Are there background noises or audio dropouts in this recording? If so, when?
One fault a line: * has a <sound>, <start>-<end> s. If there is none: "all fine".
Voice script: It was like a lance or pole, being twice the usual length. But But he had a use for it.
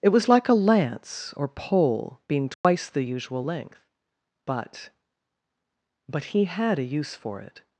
* has a dropout, 2.5-2.6 s